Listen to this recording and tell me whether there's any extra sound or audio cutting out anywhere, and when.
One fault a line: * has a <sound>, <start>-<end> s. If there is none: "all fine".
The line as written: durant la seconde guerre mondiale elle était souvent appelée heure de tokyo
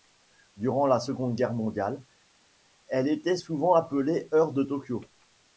all fine